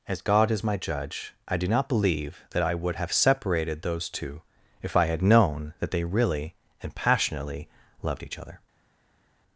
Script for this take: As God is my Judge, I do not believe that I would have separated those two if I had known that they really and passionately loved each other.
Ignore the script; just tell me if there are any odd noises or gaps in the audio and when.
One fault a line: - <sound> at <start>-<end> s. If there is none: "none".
none